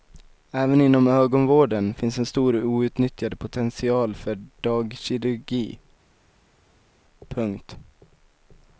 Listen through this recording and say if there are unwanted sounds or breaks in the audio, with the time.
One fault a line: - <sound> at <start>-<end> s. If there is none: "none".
none